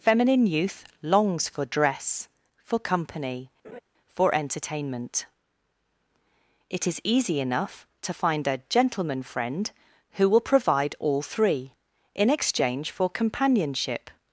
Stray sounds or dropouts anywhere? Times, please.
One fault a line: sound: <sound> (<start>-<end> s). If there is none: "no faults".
sound: laugh (3.6-3.8 s)